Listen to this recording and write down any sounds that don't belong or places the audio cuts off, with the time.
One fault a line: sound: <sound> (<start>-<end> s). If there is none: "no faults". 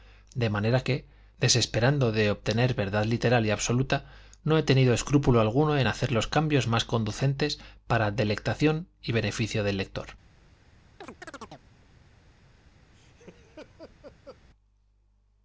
sound: chirp (11.0-11.7 s)
sound: laugh (12.9-14.4 s)